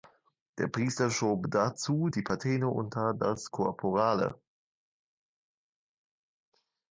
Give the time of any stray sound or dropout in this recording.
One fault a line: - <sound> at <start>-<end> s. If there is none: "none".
none